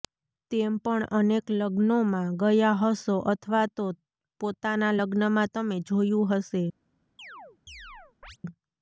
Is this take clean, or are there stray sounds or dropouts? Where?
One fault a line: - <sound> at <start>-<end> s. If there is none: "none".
- chirp at 7.2-8.4 s